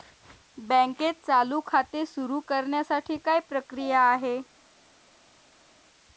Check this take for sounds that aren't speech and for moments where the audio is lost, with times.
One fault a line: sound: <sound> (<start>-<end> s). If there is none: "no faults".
no faults